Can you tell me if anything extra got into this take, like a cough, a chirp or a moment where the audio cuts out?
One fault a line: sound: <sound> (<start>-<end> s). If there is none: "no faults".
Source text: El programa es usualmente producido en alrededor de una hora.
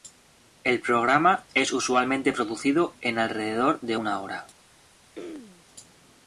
sound: throat clearing (5.2-5.7 s)